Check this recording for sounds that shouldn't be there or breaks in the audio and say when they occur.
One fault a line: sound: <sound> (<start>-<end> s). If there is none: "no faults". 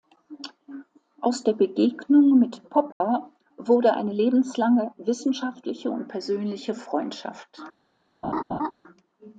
sound: dropout (2.9-3.0 s)
sound: laugh (8.2-8.7 s)